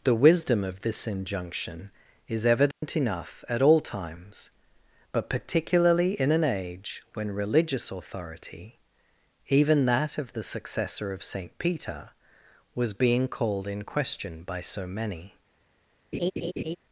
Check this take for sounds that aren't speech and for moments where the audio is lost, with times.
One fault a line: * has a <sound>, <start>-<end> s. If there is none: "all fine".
* has a dropout, 2.7-2.8 s
* has a laugh, 16.1-16.8 s